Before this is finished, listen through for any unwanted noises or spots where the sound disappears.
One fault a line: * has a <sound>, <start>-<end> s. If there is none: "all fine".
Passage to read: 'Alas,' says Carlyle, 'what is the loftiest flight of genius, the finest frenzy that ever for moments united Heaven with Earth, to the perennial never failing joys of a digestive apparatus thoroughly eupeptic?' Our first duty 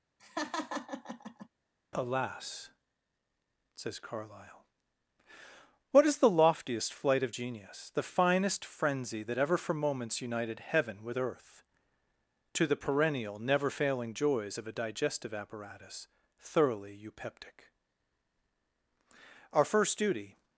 * has a laugh, 0.2-1.5 s